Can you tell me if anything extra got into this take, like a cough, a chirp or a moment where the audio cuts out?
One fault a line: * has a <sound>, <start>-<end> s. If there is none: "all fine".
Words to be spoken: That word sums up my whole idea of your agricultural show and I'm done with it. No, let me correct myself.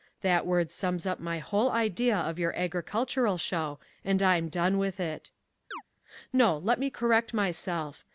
* has a chirp, 5.7-5.8 s